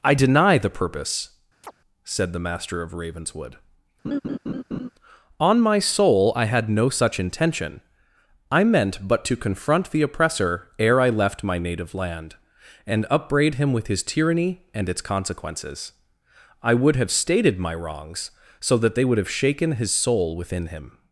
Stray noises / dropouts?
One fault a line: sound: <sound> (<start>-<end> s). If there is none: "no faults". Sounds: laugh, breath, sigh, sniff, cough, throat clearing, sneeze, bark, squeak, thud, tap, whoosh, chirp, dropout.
sound: chirp (1.6-1.7 s)
sound: laugh (4.0-4.9 s)